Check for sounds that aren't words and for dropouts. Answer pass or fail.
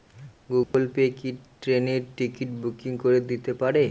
fail